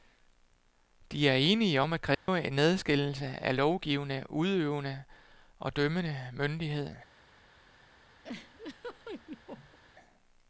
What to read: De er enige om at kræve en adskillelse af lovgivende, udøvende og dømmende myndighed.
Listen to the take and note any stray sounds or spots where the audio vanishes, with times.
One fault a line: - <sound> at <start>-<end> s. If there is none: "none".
- dropout at 2.1-2.3 s
- laugh at 8.2-9.8 s